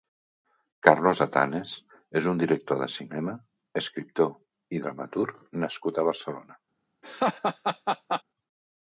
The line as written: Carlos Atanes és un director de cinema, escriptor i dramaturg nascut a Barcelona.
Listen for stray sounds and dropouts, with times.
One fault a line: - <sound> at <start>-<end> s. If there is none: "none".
- laugh at 7.0-8.2 s